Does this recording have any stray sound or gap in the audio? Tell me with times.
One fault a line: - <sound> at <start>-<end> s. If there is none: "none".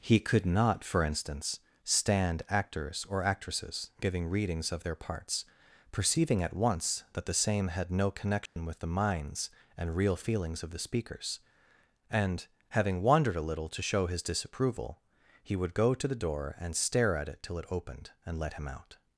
- dropout at 8.5-8.6 s